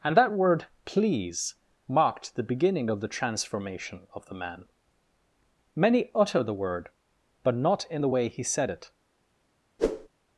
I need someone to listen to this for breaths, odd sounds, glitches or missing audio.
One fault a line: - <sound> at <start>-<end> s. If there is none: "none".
- whoosh at 9.8-10.1 s